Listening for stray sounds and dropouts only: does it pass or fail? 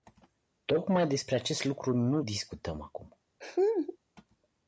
fail